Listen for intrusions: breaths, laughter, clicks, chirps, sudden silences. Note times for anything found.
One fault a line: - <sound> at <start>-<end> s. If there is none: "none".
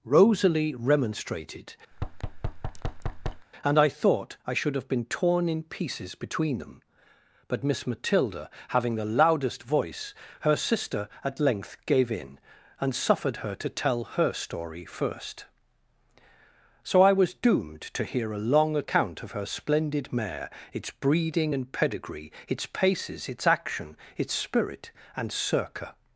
- thud at 1.9-3.5 s